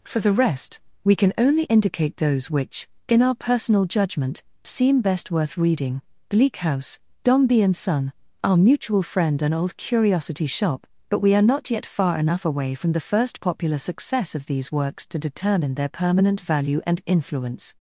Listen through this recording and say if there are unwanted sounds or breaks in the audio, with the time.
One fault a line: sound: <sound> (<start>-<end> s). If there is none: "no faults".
no faults